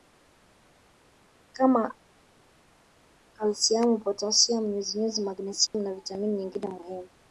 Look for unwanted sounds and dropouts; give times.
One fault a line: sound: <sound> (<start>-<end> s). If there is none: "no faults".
sound: dropout (5.7-5.7 s)